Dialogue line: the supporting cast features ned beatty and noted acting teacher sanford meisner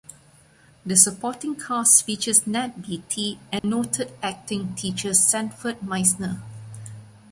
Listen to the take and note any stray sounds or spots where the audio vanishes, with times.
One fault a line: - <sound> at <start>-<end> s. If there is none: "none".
- dropout at 3.6-3.6 s